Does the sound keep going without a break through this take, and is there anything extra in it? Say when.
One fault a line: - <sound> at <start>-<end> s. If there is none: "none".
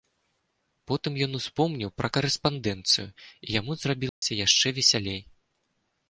- dropout at 4.1-4.2 s